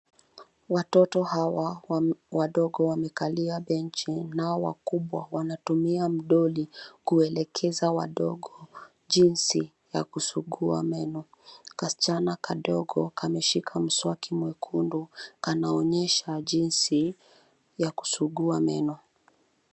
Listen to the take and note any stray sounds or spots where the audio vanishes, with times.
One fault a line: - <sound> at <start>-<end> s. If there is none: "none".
none